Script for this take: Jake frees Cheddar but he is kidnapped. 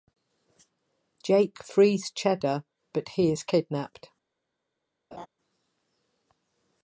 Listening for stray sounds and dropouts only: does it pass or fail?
fail